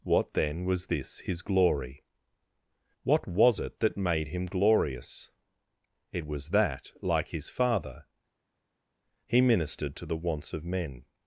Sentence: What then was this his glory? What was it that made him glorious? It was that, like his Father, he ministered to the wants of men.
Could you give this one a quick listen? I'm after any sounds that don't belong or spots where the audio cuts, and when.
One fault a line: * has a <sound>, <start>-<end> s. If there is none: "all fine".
all fine